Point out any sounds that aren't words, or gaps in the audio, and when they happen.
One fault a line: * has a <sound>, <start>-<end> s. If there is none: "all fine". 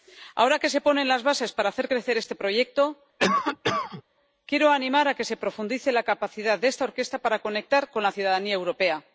* has a cough, 3.2-4.0 s